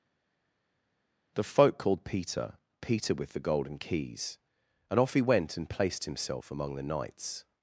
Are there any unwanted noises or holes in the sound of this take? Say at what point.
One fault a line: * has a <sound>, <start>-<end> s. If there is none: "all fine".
all fine